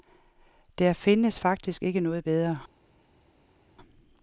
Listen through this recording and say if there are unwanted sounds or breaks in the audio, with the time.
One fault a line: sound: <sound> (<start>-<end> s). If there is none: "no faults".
no faults